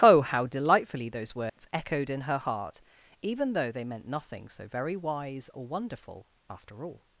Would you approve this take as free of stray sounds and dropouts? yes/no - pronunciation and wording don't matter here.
no